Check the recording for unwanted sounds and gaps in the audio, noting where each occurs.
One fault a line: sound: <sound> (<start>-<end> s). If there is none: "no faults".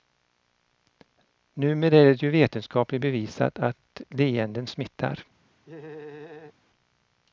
sound: laugh (5.6-6.5 s)